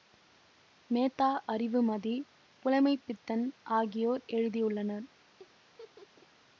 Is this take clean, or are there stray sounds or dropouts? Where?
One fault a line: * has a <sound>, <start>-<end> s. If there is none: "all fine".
* has a laugh, 5.4-6.3 s